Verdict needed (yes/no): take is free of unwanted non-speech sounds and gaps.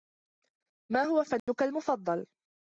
no